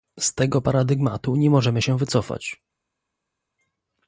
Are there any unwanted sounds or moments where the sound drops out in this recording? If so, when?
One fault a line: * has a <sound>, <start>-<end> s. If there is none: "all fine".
all fine